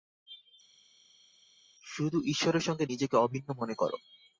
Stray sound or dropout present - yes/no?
no